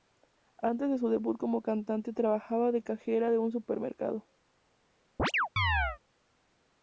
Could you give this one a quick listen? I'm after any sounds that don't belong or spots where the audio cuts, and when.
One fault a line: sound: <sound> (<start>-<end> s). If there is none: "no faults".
sound: chirp (5.2-6.0 s)